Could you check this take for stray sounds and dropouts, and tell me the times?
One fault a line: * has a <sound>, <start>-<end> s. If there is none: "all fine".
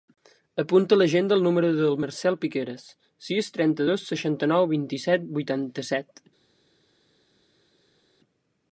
all fine